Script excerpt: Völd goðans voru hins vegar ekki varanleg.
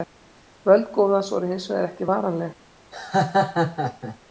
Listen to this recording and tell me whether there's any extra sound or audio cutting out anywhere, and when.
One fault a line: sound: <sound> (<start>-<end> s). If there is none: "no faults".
sound: laugh (2.9-4.2 s)